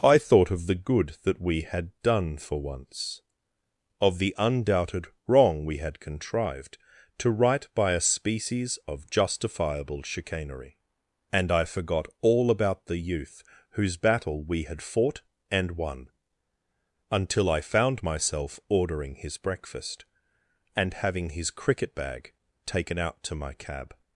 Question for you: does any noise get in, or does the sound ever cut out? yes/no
no